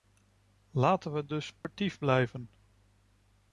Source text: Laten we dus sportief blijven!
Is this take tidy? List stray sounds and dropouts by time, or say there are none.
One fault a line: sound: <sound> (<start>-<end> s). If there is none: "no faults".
sound: dropout (1.6-1.6 s)